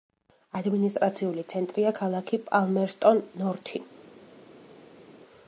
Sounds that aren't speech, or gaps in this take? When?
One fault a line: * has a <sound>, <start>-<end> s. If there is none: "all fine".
all fine